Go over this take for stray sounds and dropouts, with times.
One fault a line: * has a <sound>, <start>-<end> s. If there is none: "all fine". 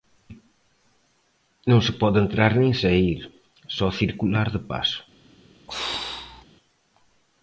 * has a throat clearing, 5.7-6.5 s